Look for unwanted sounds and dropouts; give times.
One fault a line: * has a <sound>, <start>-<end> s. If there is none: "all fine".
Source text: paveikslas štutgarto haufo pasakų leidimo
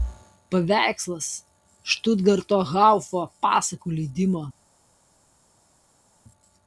all fine